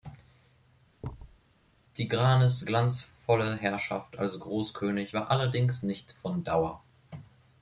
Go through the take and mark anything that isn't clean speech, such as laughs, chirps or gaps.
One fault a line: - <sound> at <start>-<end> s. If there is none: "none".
- thud at 1.0-1.4 s